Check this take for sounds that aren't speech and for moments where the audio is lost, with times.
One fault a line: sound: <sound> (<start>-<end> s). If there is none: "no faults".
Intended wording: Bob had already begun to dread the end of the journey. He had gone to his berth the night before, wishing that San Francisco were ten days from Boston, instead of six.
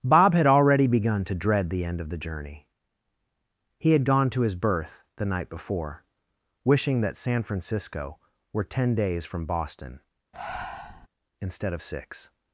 sound: breath (10.3-11.1 s)